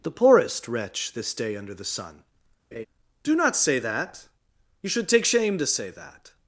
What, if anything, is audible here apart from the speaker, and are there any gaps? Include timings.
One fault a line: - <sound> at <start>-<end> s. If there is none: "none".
- laugh at 2.7-2.9 s